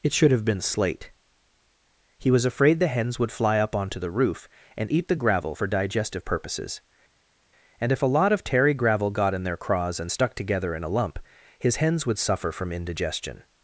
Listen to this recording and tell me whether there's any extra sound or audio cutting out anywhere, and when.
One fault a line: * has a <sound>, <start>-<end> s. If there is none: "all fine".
all fine